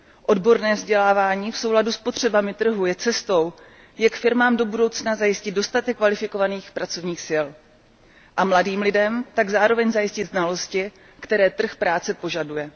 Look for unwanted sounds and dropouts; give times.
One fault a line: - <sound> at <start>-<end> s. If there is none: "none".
none